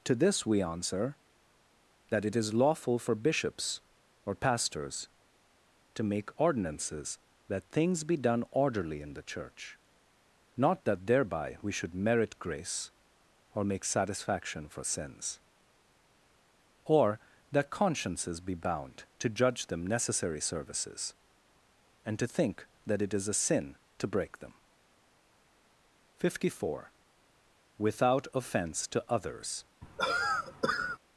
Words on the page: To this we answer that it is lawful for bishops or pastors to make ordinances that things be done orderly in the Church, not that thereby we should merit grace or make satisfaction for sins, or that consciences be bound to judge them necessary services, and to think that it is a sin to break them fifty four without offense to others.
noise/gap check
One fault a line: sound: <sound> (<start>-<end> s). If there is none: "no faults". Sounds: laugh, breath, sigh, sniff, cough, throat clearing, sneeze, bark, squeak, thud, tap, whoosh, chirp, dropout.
sound: cough (29.8-31.0 s)